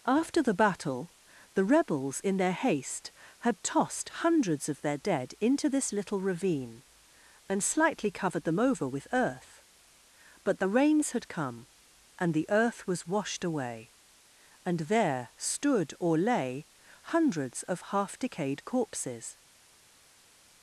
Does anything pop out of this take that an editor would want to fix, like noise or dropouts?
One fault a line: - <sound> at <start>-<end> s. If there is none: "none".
none